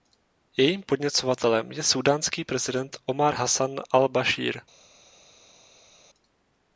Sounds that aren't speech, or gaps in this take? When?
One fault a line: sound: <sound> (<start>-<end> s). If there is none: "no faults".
no faults